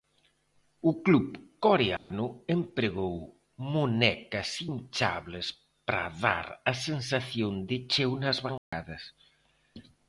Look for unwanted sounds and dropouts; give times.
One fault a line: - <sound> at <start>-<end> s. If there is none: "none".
- dropout at 2.0-2.1 s
- dropout at 8.6-8.7 s